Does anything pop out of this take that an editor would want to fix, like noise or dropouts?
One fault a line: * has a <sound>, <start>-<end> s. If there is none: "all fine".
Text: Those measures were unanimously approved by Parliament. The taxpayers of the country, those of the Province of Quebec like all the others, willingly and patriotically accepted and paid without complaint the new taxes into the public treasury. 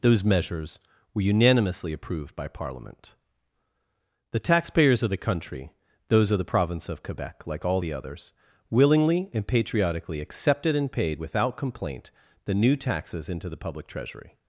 all fine